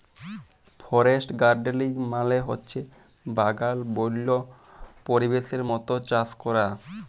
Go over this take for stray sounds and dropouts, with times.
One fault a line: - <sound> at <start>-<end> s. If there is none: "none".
none